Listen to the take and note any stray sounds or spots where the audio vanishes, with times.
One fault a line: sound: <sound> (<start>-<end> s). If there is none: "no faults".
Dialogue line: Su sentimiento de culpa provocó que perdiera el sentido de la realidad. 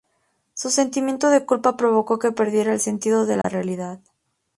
sound: dropout (3.4-3.4 s)